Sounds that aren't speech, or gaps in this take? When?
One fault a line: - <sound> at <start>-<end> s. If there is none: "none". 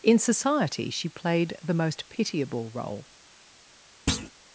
- thud at 4.1-4.3 s